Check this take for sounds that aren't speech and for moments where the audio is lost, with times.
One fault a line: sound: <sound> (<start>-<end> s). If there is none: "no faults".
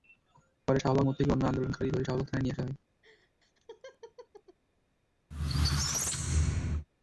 sound: laugh (3.0-4.6 s)
sound: squeak (5.3-6.9 s)